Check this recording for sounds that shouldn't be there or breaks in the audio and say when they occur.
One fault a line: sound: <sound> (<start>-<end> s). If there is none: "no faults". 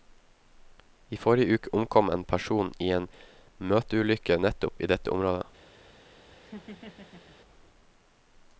sound: laugh (6.4-7.4 s)